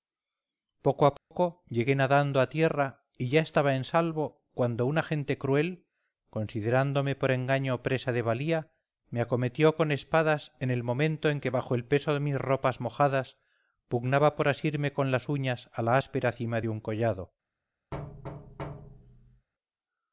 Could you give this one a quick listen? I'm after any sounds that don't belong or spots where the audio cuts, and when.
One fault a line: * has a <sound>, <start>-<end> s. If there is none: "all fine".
* has a dropout, 1.2-1.3 s
* has a thud, 17.9-19.5 s